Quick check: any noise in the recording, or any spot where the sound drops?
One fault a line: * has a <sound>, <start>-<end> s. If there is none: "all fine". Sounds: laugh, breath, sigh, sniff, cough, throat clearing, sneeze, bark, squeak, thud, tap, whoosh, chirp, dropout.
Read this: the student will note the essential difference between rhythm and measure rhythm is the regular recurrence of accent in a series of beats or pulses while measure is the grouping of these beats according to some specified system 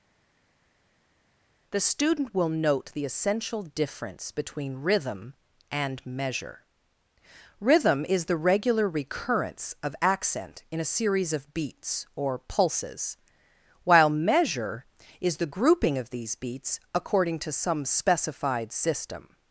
all fine